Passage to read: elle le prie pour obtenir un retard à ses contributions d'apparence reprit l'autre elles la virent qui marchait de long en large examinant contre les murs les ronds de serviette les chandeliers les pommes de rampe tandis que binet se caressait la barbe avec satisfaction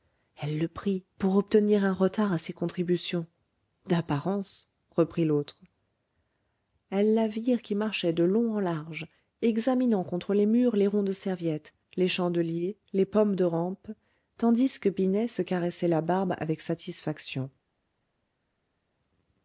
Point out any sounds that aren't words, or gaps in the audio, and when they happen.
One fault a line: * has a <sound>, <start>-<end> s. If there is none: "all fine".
all fine